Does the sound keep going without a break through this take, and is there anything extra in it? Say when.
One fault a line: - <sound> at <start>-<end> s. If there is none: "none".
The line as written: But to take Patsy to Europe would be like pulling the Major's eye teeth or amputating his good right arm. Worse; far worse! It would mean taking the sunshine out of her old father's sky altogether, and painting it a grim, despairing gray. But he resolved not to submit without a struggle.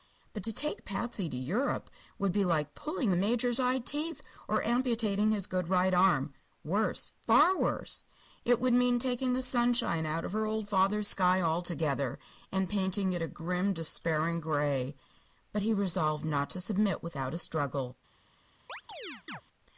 - chirp at 18.7-19.4 s